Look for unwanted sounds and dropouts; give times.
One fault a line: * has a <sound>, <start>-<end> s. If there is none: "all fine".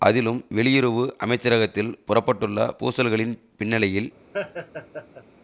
* has a laugh, 4.3-5.2 s